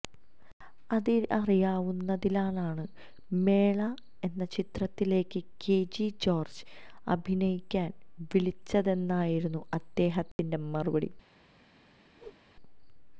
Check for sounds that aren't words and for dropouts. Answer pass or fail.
fail